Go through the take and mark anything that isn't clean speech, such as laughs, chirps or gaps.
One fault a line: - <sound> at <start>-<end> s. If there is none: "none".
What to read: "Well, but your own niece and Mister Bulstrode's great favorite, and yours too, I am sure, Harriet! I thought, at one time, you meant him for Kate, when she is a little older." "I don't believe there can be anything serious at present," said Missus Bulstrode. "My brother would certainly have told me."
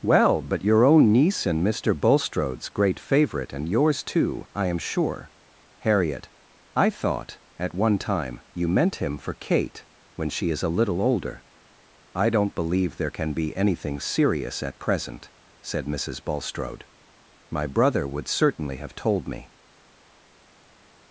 none